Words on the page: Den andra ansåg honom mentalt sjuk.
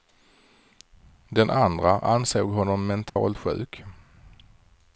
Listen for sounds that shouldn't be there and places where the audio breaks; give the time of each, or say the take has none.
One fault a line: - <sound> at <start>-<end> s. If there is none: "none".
- dropout at 3.1-3.2 s